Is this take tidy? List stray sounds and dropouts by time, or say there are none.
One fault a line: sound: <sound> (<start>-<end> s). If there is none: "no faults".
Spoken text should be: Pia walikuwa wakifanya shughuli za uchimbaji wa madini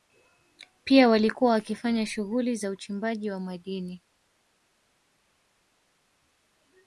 no faults